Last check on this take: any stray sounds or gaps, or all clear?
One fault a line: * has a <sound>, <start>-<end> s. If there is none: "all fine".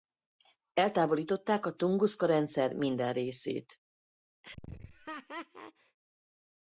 * has a laugh, 4.4-6.0 s